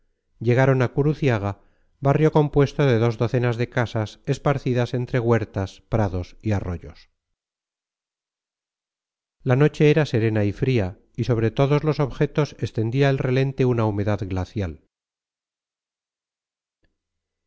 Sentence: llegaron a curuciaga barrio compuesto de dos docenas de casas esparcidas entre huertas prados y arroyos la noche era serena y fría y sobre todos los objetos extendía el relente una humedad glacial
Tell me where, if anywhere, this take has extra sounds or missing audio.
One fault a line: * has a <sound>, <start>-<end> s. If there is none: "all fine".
all fine